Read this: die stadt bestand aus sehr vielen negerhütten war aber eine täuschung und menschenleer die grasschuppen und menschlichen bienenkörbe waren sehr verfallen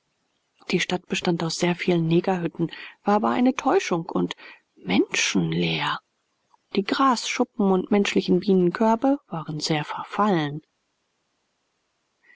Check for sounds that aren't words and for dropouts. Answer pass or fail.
pass